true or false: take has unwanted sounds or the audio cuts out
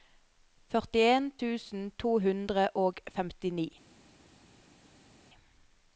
false